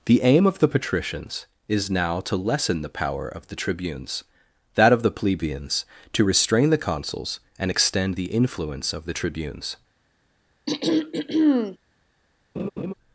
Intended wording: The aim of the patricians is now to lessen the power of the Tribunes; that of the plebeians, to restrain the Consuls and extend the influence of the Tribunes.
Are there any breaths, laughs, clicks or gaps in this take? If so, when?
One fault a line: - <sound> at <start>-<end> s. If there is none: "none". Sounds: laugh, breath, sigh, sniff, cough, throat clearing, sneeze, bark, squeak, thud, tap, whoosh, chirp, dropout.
- throat clearing at 10.7-11.8 s
- laugh at 12.6-12.9 s